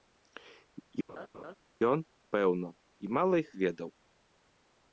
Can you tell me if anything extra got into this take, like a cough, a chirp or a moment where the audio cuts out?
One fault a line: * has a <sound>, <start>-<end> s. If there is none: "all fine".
* has a laugh, 1.1-1.6 s